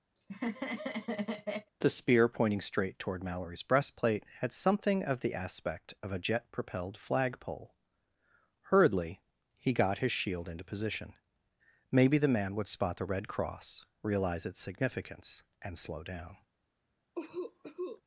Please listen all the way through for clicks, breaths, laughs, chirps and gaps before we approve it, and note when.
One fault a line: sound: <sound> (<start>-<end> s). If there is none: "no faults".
sound: laugh (0.1-1.7 s)
sound: cough (17.2-18.0 s)